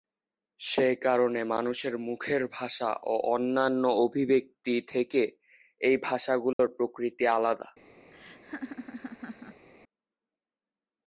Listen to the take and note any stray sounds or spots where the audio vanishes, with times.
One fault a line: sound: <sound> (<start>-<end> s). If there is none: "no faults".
sound: dropout (6.5-6.6 s)
sound: laugh (8.1-9.7 s)